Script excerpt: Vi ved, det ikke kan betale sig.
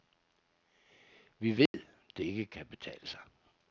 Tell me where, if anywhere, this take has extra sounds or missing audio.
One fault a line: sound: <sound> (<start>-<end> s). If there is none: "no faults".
sound: dropout (1.7-1.7 s)